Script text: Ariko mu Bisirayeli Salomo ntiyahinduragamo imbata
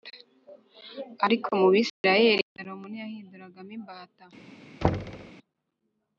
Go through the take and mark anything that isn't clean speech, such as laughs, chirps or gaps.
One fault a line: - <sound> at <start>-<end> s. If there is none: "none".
- dropout at 1.9-2.0 s
- thud at 4.8-5.3 s